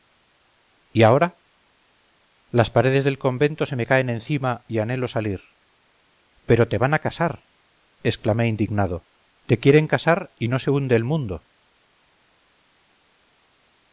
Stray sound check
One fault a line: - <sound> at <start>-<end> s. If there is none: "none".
none